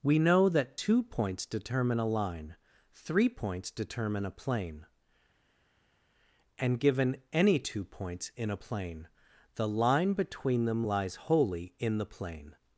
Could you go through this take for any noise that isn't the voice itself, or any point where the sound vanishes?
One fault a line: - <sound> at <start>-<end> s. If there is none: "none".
none